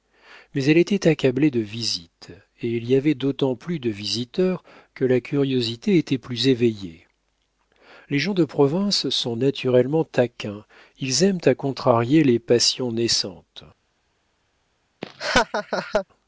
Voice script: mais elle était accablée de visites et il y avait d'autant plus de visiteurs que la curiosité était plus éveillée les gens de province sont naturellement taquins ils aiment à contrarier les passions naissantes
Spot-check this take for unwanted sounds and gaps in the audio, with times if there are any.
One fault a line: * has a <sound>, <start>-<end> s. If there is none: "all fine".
* has a laugh, 15.0-16.1 s